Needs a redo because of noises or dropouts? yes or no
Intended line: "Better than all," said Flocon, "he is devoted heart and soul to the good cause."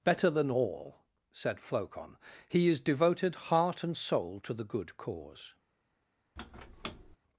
yes